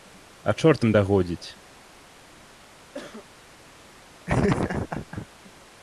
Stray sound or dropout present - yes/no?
yes